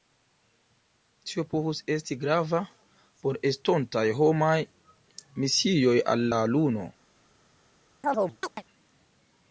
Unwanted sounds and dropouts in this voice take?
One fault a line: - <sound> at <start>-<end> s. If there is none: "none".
- chirp at 8.0-8.6 s